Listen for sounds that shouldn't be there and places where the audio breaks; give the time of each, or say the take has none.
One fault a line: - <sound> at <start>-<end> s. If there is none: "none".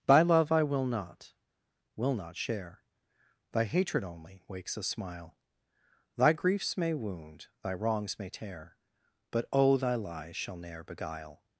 none